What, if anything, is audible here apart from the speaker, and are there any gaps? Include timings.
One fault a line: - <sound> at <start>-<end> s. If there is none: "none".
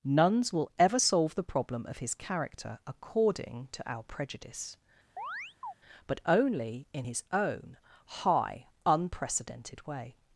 - chirp at 5.2-5.7 s